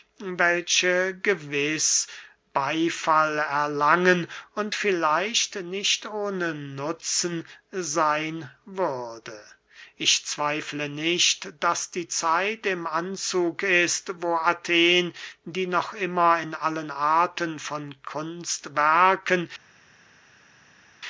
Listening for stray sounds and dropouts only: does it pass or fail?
pass